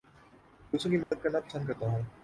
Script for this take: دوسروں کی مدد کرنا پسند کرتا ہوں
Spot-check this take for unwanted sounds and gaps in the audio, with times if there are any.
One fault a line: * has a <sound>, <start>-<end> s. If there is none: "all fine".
* has a dropout, 1.0-1.1 s